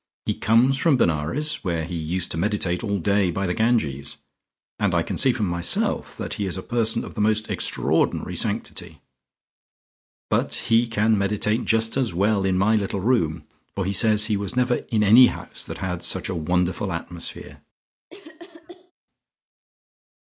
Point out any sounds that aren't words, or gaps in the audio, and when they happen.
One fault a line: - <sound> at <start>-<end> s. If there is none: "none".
- cough at 18.1-18.9 s